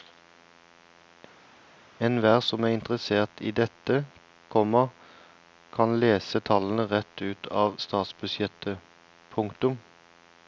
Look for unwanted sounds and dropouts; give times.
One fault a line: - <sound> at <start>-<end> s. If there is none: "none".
none